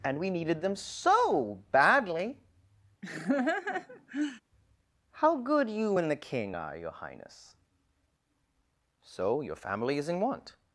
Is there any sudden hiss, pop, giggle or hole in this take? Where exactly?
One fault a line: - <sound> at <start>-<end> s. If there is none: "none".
- laugh at 3.0-4.4 s